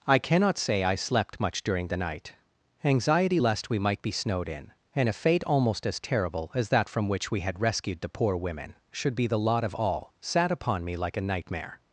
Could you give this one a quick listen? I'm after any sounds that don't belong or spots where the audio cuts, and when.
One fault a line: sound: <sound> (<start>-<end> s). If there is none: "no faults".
no faults